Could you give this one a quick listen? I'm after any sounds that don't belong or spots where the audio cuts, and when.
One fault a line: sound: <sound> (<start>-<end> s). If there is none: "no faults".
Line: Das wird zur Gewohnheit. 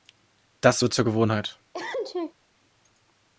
sound: sneeze (1.7-2.3 s)